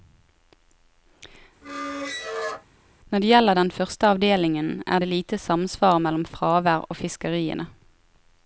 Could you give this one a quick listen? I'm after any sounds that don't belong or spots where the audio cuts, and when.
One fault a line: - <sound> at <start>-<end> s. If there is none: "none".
- squeak at 1.6-2.7 s